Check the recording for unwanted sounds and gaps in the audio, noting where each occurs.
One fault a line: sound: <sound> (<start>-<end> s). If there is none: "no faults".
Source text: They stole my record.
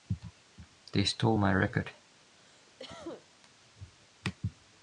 sound: cough (2.4-3.3 s)